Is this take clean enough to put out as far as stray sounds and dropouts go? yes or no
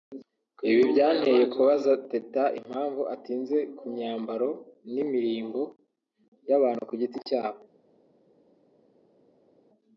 yes